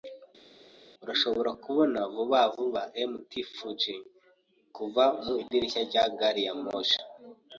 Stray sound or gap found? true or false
false